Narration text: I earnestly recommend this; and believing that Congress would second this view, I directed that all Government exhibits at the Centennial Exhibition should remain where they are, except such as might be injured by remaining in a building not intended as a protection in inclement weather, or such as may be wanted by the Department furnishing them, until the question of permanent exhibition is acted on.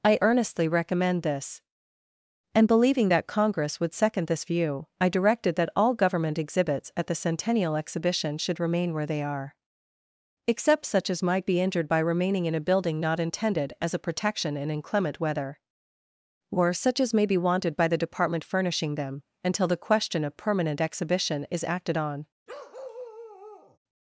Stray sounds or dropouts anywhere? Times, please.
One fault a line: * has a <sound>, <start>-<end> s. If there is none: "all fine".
* has a bark, 22.5-23.8 s